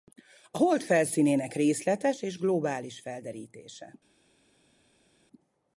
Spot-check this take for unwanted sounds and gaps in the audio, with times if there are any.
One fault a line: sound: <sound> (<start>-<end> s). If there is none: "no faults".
no faults